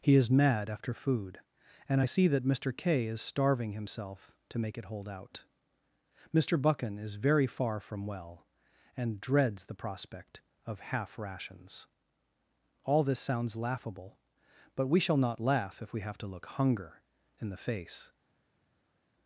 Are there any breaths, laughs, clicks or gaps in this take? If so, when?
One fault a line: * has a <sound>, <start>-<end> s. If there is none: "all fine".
all fine